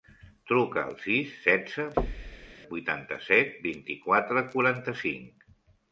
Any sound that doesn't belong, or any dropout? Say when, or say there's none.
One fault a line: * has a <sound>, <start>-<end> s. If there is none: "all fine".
* has a thud, 2.0-2.5 s